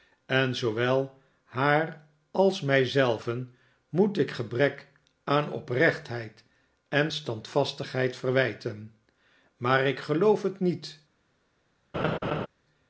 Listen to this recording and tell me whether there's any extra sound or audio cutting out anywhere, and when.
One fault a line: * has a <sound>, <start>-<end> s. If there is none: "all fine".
* has a laugh, 11.9-12.5 s